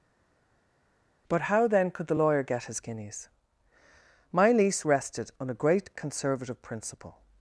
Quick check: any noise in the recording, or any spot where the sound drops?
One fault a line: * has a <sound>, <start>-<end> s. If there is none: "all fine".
all fine